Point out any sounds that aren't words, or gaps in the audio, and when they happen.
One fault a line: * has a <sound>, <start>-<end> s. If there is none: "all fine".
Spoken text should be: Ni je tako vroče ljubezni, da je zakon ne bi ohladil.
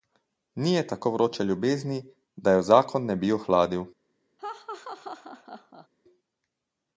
* has a laugh, 4.4-5.9 s